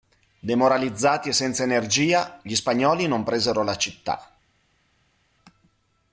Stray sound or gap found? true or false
false